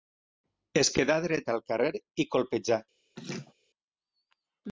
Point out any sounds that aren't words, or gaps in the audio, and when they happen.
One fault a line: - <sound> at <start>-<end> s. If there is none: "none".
- laugh at 3.2-3.5 s